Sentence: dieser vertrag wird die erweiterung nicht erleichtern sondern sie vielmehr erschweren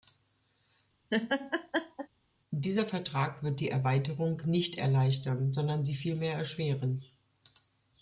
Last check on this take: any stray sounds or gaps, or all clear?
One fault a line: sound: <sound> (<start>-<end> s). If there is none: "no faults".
sound: laugh (1.1-2.1 s)